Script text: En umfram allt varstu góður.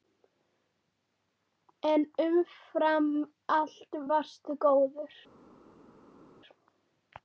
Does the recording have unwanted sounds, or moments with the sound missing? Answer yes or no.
no